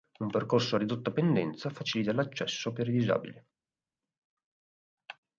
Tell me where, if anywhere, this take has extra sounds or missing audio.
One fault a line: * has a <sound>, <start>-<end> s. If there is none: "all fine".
all fine